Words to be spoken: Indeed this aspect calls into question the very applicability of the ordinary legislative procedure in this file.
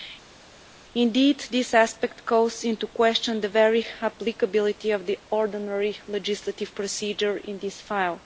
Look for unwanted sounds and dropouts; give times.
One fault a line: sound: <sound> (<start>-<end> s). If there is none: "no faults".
no faults